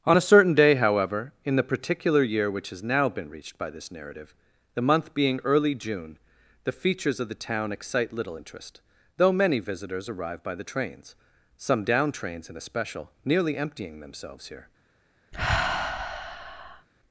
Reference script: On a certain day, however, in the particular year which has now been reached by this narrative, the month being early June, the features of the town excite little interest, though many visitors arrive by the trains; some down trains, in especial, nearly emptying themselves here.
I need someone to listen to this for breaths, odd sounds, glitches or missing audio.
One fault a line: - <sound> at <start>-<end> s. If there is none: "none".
- sigh at 15.3-16.9 s